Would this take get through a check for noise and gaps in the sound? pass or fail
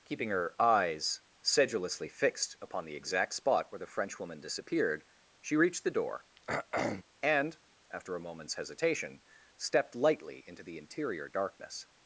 fail